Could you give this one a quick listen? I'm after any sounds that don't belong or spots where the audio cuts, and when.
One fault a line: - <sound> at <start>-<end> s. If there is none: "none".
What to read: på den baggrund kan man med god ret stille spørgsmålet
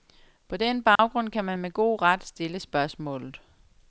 - dropout at 1.0-1.0 s